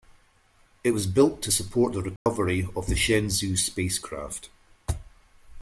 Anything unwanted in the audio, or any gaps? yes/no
yes